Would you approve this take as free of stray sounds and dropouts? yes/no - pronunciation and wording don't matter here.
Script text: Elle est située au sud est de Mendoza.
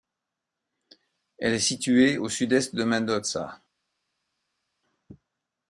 yes